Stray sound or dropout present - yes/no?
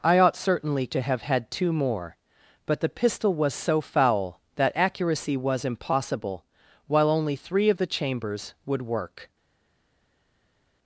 no